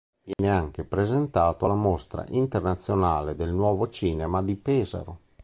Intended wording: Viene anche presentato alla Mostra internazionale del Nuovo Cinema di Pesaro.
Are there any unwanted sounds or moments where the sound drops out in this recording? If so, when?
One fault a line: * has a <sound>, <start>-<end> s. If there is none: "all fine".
* has a dropout, 0.3-0.4 s